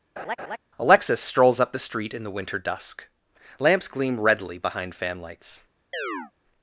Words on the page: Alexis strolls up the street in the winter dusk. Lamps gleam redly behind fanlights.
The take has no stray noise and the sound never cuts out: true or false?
false